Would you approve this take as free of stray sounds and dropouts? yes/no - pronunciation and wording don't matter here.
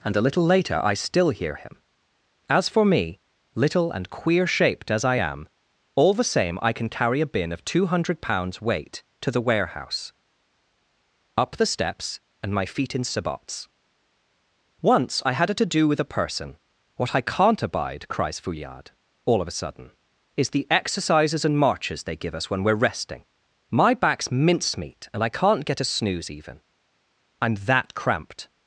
yes